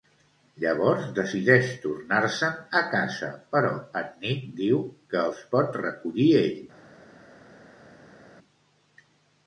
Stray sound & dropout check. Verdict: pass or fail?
pass